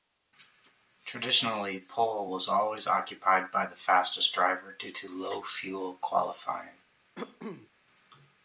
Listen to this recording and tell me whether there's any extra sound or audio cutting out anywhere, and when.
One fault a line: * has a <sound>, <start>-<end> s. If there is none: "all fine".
* has a cough, 7.1-7.7 s